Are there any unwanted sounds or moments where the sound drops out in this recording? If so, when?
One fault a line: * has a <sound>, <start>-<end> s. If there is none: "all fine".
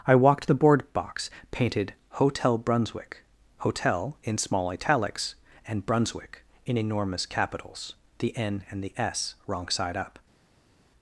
all fine